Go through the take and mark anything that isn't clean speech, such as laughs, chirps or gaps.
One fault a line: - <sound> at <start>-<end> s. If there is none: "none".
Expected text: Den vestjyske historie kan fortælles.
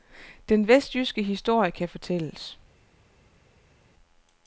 none